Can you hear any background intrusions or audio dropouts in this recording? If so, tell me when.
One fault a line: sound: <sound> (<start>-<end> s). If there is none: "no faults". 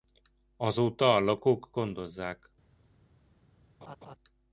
sound: laugh (3.8-4.2 s)